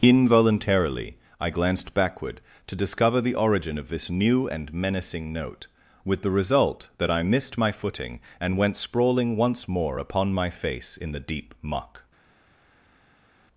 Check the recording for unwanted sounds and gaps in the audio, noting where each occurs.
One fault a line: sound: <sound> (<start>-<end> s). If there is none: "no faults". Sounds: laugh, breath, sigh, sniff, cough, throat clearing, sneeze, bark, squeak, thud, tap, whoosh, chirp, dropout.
no faults